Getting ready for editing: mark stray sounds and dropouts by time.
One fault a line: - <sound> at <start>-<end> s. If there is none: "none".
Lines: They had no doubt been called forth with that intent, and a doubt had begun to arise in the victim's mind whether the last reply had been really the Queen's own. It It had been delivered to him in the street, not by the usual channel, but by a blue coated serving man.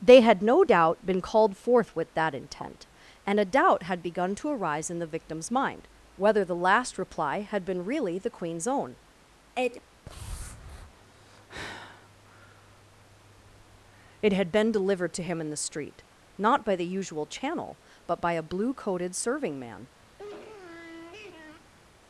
- sniff at 20.2-21.7 s